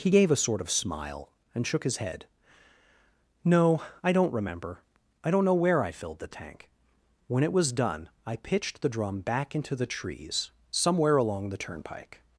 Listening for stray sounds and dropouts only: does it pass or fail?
pass